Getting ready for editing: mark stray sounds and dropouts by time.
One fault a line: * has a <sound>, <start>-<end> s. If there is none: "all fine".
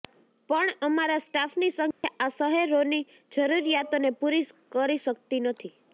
* has a dropout, 1.9-2.0 s